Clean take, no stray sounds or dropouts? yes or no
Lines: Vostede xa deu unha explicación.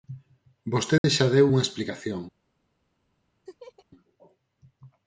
no